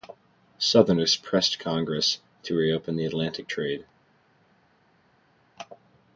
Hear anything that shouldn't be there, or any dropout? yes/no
no